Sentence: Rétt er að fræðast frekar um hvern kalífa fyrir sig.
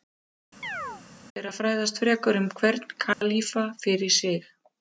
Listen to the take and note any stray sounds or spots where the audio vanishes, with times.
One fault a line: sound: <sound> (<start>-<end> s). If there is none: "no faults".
sound: chirp (0.6-1.0 s)
sound: dropout (3.1-3.2 s)